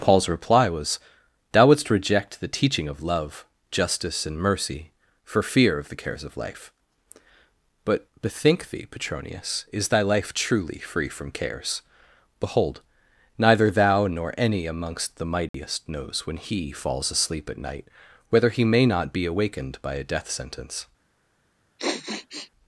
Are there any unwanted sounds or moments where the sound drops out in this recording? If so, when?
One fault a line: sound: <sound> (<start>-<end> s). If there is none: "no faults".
sound: dropout (15.5-15.5 s)
sound: sniff (21.8-22.5 s)